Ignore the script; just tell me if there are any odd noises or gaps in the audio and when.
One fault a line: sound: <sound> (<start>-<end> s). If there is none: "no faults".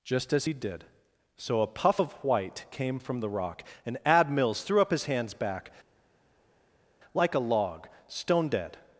no faults